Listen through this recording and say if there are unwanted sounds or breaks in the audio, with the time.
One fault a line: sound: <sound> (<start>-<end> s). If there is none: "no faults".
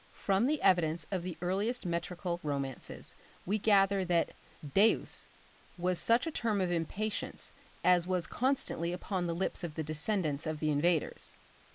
no faults